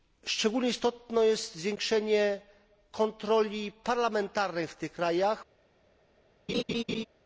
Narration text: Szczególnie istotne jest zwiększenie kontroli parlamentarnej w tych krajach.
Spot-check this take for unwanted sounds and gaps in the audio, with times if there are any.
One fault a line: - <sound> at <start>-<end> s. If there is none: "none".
- laugh at 6.5-7.1 s